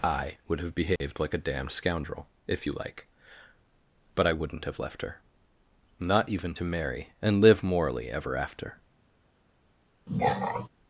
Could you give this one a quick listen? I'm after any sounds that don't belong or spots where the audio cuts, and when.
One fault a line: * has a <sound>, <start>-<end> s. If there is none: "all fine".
* has a dropout, 1.0-1.0 s
* has a throat clearing, 10.1-10.7 s